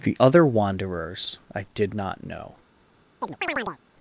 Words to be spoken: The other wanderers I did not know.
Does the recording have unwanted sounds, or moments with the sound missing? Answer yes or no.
yes